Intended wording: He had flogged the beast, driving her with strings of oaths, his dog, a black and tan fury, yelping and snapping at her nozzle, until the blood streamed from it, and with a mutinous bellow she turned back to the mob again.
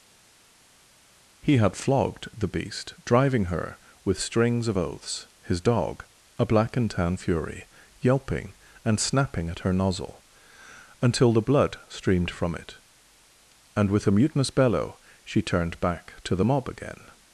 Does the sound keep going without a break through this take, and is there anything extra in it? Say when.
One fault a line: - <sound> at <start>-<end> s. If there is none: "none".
none